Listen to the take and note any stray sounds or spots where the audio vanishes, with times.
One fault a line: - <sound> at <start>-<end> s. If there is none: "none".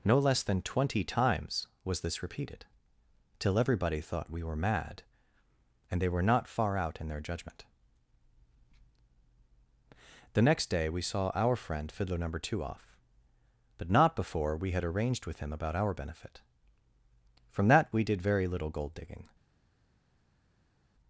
none